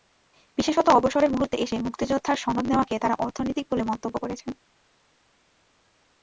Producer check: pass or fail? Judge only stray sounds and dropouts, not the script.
pass